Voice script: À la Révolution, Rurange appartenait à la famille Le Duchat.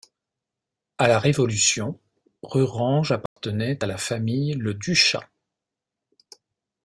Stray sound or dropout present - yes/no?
yes